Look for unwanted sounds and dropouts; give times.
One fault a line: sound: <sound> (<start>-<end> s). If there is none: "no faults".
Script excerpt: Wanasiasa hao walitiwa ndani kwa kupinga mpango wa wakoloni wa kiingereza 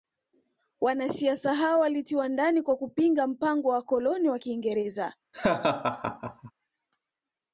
sound: laugh (5.3-6.5 s)